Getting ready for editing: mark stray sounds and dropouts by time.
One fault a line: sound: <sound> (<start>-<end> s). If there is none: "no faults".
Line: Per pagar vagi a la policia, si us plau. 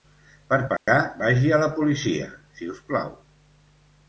sound: dropout (0.8-0.9 s)